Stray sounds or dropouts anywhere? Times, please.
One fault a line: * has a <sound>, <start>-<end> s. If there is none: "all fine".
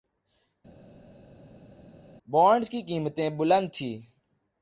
all fine